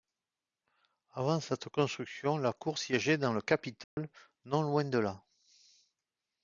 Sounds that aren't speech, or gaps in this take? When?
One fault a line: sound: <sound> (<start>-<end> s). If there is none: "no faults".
sound: dropout (3.8-4.0 s)